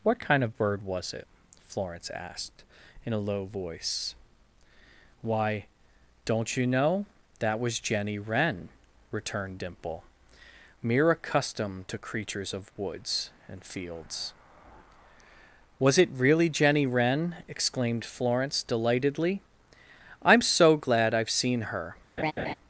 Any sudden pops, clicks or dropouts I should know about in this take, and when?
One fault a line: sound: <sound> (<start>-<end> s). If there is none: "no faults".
sound: laugh (22.2-22.5 s)